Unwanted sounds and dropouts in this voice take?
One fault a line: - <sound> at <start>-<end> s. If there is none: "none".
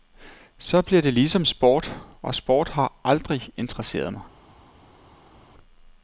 none